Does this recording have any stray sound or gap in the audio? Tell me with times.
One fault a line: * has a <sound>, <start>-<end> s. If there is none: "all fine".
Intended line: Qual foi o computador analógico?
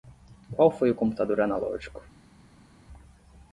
all fine